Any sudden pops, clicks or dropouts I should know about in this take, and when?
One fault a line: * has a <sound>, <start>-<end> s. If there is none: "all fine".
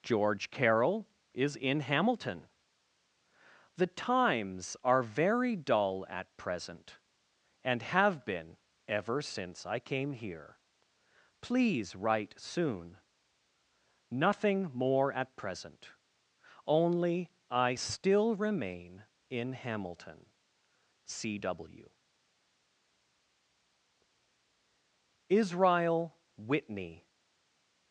all fine